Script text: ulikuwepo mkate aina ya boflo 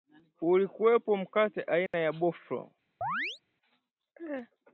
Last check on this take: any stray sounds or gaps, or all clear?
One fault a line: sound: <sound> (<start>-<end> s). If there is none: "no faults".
sound: dropout (1.9-1.9 s)
sound: chirp (3.0-3.4 s)